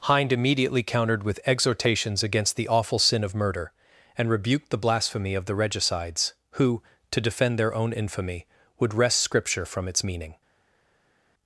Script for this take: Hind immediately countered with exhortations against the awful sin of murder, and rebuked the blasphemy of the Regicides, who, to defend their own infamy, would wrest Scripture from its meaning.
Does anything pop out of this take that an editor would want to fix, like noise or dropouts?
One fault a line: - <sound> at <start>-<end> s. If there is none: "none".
none